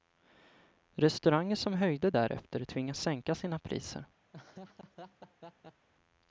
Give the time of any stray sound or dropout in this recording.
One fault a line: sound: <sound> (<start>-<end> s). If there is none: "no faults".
sound: laugh (4.3-5.9 s)